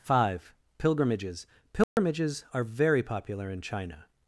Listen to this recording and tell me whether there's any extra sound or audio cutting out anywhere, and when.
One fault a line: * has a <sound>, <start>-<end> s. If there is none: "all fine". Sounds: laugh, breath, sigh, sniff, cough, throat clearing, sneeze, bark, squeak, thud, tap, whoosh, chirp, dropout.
* has a dropout, 1.8-2.0 s